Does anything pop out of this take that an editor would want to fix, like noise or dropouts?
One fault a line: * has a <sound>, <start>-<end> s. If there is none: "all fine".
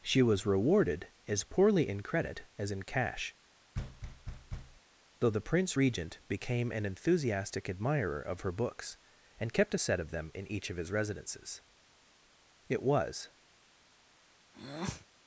* has a thud, 3.7-4.8 s
* has a breath, 14.5-15.1 s